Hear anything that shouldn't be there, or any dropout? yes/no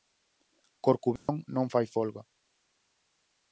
yes